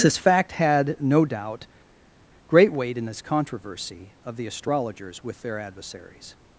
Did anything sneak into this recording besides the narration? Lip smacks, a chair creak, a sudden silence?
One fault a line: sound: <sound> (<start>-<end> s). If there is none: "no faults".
no faults